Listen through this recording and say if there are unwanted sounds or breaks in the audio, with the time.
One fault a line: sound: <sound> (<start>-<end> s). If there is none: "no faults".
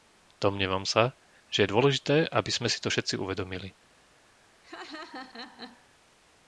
sound: laugh (4.6-5.9 s)